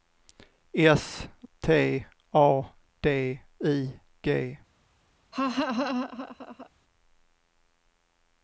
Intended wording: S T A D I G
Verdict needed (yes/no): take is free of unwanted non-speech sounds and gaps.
no